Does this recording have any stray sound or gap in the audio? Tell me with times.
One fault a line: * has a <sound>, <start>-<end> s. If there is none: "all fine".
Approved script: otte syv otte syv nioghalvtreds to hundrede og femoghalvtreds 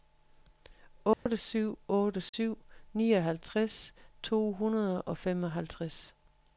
* has a dropout, 1.1-1.3 s
* has a dropout, 2.3-2.3 s